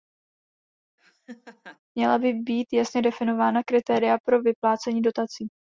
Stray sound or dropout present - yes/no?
yes